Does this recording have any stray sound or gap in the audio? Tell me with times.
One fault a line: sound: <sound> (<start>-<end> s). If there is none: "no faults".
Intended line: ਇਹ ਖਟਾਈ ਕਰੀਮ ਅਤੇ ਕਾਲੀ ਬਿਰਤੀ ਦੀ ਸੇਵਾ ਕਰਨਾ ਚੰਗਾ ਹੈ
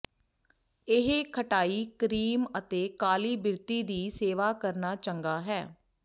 no faults